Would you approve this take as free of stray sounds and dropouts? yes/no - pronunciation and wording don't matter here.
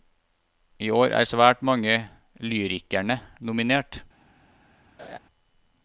no